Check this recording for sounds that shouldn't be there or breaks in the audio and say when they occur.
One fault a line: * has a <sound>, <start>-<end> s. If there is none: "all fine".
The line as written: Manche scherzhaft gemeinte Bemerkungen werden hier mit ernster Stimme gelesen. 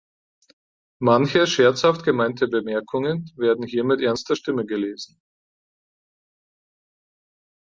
all fine